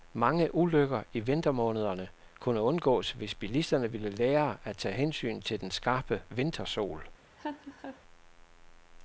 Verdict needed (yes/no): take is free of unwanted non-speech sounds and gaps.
no